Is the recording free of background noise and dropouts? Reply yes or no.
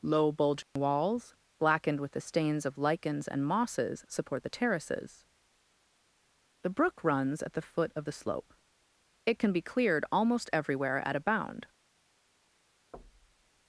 no